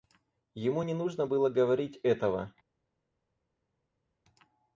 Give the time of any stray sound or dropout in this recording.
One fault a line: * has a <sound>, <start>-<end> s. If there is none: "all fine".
all fine